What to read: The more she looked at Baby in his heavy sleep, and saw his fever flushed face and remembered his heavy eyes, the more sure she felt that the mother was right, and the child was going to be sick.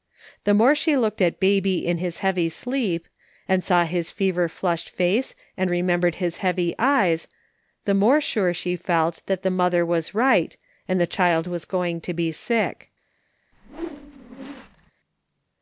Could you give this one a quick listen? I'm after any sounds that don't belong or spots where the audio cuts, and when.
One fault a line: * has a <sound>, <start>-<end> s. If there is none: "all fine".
* has a whoosh, 13.5-14.9 s